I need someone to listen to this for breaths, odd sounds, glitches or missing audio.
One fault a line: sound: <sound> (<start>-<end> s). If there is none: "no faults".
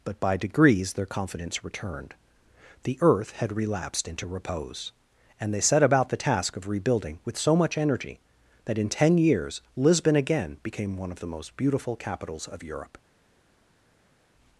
no faults